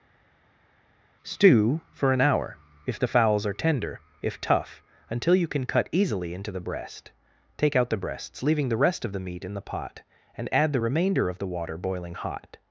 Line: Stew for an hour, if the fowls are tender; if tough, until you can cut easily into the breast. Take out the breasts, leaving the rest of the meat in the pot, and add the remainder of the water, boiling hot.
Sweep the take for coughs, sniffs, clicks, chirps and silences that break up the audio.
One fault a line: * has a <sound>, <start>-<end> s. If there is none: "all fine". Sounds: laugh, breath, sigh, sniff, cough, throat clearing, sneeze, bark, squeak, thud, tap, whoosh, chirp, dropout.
all fine